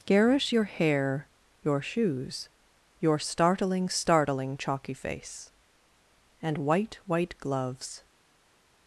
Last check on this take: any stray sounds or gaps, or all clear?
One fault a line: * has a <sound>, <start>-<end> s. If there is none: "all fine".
all fine